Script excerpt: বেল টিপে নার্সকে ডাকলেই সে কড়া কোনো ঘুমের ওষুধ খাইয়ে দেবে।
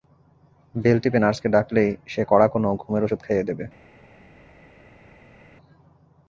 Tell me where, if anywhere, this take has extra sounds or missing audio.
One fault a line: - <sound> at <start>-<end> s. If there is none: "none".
none